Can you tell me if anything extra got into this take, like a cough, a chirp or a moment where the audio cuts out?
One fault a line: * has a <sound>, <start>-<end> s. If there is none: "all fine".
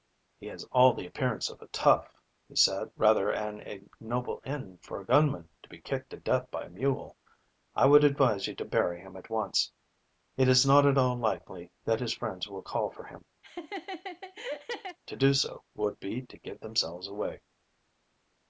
* has a laugh, 13.4-15.0 s